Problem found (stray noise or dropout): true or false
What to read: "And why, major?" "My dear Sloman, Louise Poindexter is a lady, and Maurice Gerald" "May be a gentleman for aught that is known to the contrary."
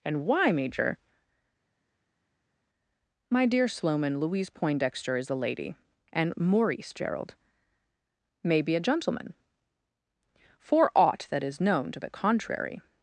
false